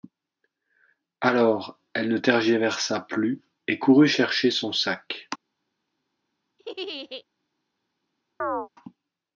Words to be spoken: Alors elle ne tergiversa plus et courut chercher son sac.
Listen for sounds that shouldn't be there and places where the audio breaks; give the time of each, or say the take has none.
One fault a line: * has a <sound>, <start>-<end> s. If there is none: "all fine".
* has a laugh, 6.6-7.2 s
* has a chirp, 8.4-8.7 s